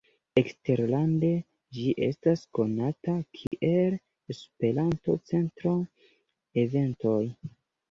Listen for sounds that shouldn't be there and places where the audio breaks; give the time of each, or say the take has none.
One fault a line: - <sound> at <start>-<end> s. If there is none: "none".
- dropout at 3.5-3.5 s